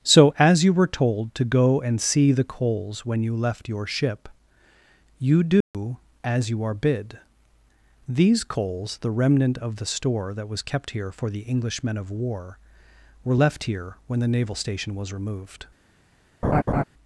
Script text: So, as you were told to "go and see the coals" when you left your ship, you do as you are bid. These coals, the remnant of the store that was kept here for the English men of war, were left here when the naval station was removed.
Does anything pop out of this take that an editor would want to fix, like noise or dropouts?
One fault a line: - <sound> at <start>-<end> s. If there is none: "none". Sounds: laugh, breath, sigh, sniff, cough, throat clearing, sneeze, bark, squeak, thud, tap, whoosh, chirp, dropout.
- dropout at 5.6-5.7 s
- laugh at 16.4-16.8 s